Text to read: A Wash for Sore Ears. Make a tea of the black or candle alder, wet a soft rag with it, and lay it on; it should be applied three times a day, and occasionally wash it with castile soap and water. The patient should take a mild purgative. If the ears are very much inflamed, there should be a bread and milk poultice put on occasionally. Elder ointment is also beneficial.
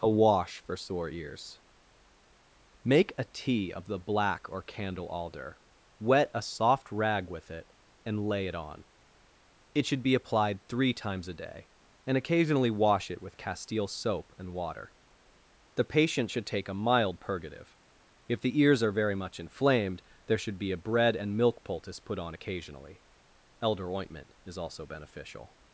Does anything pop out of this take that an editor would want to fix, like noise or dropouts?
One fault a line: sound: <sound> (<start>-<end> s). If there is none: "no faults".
no faults